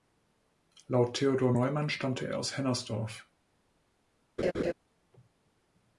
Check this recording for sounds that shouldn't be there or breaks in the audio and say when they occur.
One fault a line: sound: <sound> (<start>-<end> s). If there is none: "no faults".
sound: laugh (4.4-4.7 s)